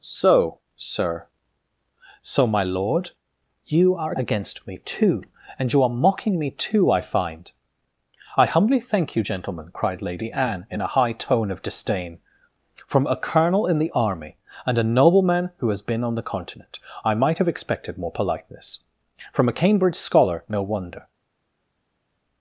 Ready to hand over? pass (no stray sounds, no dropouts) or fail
pass